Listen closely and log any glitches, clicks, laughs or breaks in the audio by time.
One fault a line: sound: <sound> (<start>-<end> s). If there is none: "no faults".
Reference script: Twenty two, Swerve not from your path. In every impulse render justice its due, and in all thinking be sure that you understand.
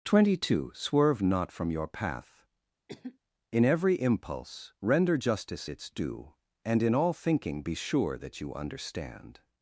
sound: cough (2.9-3.2 s)